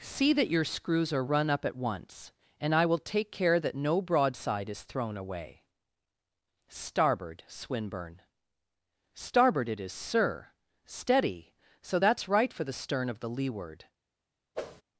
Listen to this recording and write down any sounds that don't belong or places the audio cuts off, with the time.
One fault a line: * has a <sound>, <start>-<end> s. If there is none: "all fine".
* has a whoosh, 14.5-14.8 s